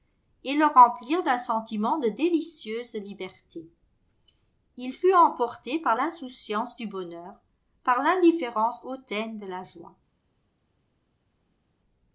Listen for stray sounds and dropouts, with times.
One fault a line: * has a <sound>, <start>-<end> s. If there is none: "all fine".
all fine